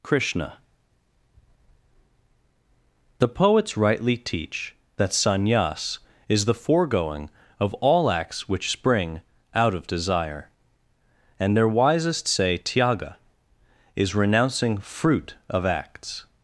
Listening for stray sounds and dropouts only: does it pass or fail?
pass